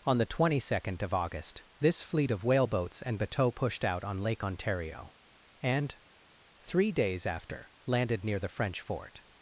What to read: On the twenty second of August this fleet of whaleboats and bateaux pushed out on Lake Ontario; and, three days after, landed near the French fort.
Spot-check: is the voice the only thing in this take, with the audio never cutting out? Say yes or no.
yes